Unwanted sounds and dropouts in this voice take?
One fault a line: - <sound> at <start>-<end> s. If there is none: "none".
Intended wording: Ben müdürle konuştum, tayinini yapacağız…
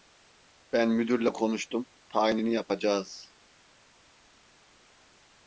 none